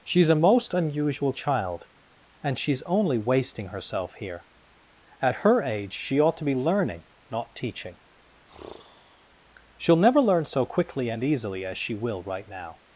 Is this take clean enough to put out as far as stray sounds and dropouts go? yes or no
no